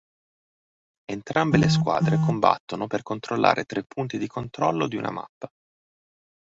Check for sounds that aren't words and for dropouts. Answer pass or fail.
pass